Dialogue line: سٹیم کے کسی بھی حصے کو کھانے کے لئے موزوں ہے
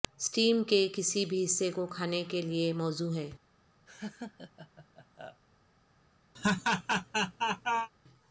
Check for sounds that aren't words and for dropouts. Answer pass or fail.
fail